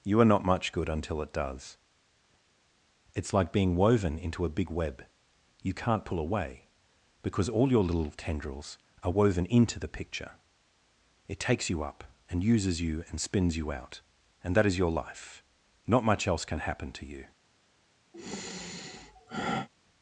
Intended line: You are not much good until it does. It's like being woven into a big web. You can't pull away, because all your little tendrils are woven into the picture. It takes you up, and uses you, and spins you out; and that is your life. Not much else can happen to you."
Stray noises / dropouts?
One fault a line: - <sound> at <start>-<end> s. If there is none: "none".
- sigh at 18.1-19.7 s